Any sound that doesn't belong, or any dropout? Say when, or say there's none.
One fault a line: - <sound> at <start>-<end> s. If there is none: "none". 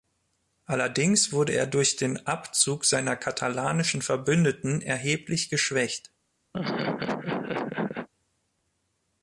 - laugh at 6.5-8.1 s